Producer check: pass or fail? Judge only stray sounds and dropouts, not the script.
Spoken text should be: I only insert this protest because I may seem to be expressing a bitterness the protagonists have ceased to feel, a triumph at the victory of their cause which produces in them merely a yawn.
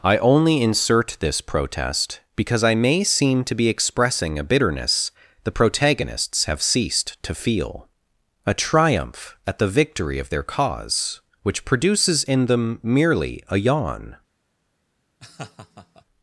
fail